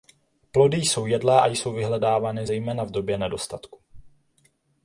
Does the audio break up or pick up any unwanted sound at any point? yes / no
no